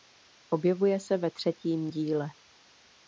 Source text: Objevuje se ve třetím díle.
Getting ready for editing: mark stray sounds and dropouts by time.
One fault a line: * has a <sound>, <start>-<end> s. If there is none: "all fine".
all fine